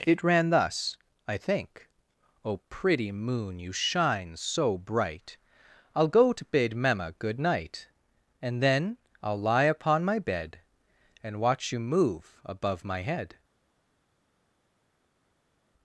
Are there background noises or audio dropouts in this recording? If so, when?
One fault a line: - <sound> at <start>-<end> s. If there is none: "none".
none